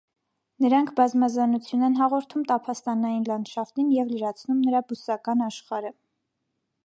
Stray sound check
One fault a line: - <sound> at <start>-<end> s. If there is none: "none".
none